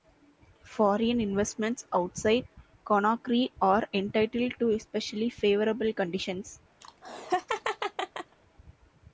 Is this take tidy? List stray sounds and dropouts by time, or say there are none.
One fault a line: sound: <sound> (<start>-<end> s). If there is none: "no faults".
sound: laugh (6.8-8.4 s)